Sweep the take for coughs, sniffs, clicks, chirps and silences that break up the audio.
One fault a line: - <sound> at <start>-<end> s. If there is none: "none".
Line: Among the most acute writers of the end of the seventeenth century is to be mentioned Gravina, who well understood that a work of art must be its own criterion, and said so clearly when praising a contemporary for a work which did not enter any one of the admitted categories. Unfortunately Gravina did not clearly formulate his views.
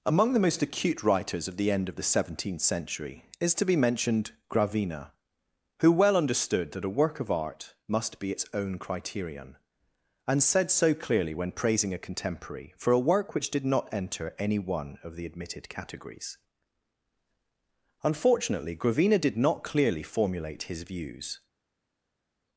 none